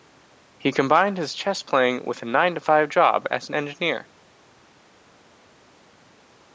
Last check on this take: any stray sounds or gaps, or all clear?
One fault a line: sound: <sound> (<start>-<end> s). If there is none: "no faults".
no faults